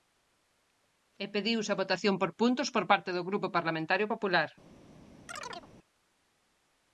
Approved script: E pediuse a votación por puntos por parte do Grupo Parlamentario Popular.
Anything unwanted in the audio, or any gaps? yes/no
yes